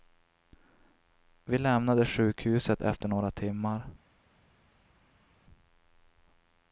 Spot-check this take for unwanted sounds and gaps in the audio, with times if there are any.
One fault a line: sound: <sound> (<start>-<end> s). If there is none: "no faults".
no faults